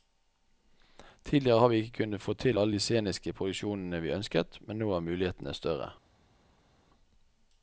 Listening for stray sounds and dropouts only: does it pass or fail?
pass